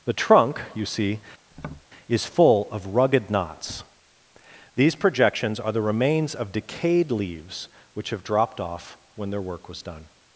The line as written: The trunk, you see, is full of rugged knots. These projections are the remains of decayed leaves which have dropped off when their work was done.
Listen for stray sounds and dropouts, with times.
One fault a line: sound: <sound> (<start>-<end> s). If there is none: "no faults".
sound: tap (1.5-1.9 s)